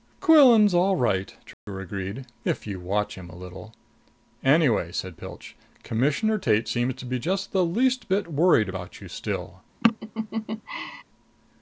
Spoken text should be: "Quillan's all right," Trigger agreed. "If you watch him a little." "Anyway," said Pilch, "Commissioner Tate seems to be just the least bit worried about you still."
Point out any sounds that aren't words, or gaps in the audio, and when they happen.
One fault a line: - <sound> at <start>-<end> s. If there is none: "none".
- dropout at 1.5-1.7 s
- laugh at 9.8-11.0 s